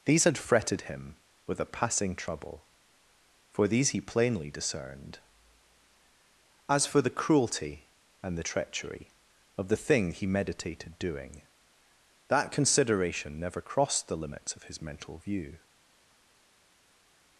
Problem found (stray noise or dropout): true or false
false